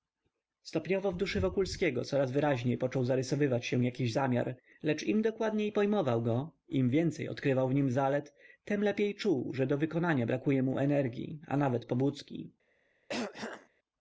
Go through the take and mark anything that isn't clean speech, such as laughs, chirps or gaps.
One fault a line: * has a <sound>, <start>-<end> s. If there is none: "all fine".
* has a throat clearing, 13.1-13.7 s